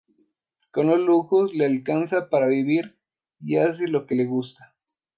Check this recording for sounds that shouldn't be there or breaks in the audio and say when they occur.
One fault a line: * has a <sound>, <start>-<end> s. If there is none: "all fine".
all fine